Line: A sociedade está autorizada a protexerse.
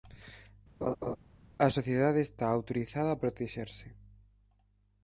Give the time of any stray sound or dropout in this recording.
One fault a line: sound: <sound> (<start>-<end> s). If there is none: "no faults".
sound: laugh (0.8-1.2 s)